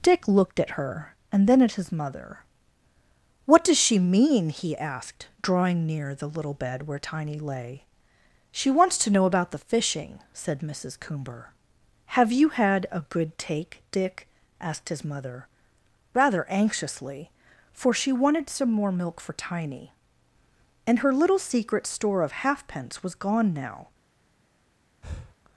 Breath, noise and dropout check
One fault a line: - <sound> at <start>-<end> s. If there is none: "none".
- breath at 25.0-25.4 s